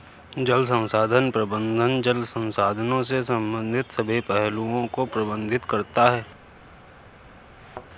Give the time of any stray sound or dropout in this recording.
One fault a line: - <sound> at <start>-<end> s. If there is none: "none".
- thud at 7.6-7.9 s